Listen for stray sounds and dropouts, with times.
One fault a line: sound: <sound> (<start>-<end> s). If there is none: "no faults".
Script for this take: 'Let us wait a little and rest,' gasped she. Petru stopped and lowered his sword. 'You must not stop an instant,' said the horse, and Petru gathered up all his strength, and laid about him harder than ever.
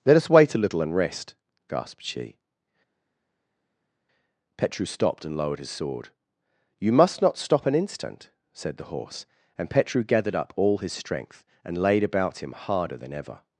no faults